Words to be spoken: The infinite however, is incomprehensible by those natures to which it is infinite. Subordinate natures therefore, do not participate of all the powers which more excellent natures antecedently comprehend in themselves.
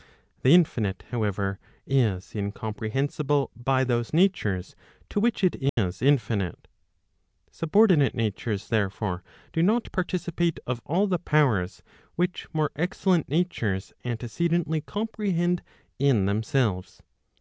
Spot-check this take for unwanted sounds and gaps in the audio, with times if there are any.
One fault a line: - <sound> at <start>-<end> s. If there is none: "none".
- dropout at 5.7-5.8 s